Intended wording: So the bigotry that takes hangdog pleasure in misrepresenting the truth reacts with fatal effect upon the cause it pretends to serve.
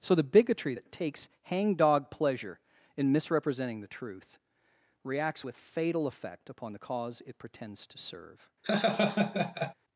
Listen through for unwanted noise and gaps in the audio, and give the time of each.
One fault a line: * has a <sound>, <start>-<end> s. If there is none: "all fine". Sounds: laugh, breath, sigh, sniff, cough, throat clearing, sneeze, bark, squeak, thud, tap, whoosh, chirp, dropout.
* has a laugh, 8.6-9.7 s